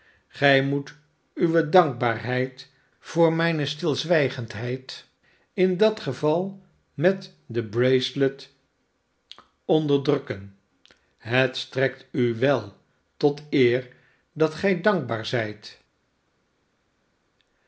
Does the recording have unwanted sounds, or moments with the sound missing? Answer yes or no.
no